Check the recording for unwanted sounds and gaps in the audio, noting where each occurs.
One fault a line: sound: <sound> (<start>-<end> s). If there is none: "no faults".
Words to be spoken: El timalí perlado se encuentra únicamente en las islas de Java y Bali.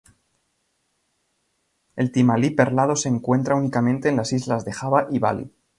no faults